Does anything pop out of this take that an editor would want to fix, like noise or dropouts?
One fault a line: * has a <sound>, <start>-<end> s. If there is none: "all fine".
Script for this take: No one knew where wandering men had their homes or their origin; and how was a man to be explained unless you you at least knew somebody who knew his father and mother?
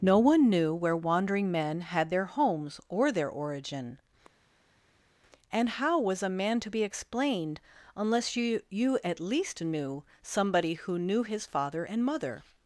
all fine